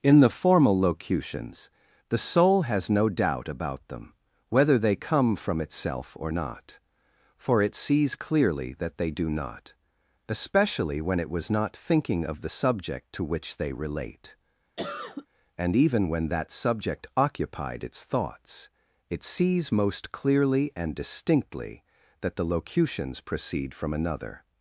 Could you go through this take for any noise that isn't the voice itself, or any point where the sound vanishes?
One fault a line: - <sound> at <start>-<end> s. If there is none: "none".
- cough at 14.8-15.3 s